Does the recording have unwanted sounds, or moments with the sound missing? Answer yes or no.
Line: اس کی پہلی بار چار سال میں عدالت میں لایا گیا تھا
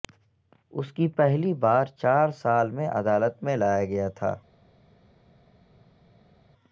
no